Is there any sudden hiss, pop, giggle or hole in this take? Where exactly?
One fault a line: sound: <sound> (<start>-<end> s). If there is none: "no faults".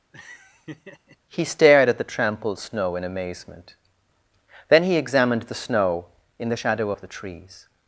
sound: laugh (0.1-1.2 s)